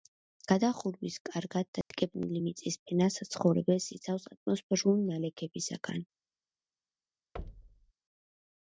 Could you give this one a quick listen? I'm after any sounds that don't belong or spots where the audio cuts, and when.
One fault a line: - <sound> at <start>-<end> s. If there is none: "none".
- dropout at 1.8-1.9 s
- thud at 7.4-7.9 s